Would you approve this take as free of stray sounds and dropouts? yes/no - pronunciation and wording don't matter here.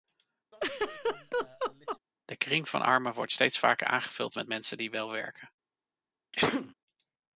no